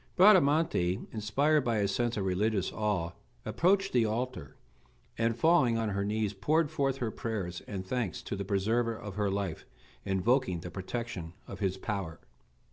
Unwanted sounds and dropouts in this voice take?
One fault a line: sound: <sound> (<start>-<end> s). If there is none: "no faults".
no faults